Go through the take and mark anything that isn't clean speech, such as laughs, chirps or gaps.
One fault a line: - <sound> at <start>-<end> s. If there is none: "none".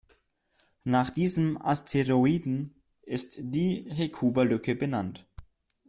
none